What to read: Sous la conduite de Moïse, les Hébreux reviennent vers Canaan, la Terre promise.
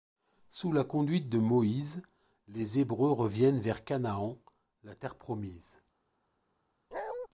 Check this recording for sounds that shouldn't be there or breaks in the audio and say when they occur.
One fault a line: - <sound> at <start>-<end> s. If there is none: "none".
- bark at 6.9-7.3 s